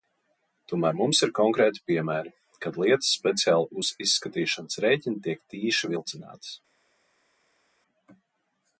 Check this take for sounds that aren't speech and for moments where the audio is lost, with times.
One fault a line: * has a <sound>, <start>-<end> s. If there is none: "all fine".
all fine